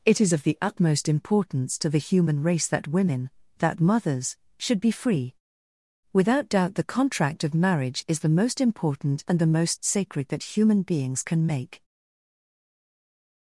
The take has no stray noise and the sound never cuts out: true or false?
true